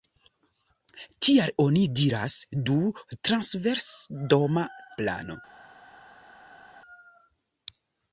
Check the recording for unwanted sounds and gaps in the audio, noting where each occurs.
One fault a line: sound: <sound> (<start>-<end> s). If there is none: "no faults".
no faults